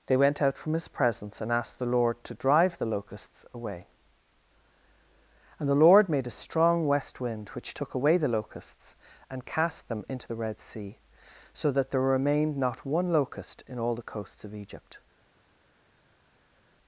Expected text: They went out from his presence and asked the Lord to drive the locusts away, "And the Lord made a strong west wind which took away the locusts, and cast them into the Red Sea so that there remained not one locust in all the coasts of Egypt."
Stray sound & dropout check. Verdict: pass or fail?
pass